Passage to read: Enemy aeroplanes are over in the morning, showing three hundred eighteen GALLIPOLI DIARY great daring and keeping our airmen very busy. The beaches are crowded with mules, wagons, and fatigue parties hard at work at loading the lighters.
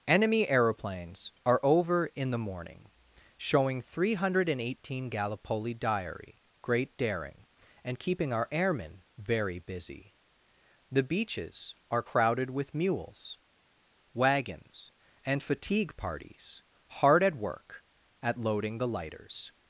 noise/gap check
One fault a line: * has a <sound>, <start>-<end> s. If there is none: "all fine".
all fine